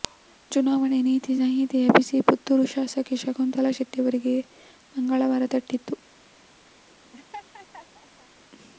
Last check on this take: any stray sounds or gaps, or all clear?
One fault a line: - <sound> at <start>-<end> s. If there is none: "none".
- laugh at 7.1-8.3 s